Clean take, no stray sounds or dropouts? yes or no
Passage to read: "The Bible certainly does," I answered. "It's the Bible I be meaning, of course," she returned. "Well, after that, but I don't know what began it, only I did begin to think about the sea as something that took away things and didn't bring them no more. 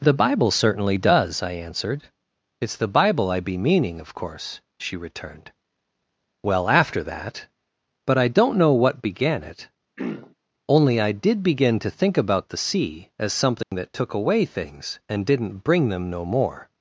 no